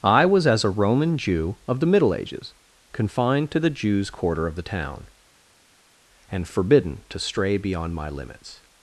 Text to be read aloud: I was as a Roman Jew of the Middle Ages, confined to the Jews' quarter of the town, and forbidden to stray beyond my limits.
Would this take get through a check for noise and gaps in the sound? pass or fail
pass